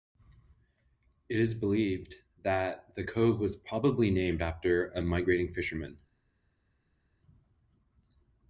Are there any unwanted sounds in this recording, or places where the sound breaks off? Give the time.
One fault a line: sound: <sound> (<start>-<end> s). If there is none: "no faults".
no faults